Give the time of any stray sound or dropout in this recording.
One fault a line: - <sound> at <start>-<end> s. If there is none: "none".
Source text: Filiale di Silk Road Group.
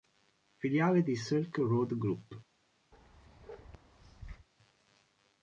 - bark at 2.9-4.5 s